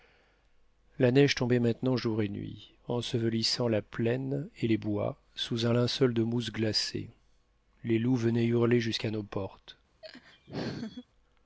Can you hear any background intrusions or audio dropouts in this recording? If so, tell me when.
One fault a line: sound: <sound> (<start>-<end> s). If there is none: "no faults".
sound: laugh (10.0-11.0 s)